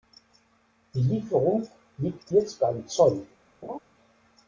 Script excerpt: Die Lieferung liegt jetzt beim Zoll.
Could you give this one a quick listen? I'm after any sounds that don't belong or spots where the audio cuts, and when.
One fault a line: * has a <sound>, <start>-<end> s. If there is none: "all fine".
* has a laugh, 3.6-3.8 s